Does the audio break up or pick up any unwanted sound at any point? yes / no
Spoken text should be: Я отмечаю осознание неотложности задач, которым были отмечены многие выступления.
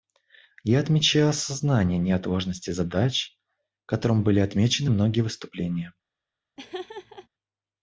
yes